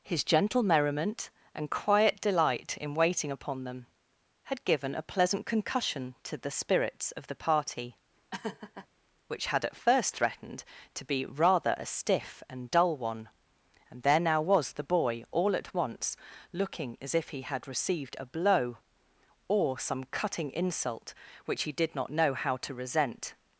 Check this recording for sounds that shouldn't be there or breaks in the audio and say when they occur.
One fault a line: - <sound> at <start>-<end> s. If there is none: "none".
- laugh at 8.3-8.9 s